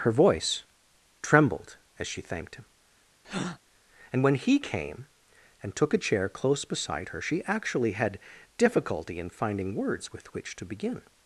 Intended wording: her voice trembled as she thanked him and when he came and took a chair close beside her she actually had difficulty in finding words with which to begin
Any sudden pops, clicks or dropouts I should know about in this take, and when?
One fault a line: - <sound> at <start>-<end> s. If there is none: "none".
- breath at 3.2-3.6 s